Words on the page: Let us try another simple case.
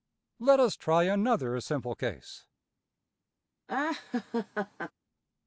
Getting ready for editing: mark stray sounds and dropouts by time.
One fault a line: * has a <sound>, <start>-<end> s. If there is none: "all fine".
* has a laugh, 3.7-4.9 s